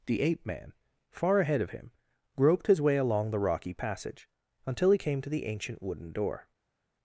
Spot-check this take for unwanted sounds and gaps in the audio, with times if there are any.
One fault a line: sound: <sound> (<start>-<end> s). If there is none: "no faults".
no faults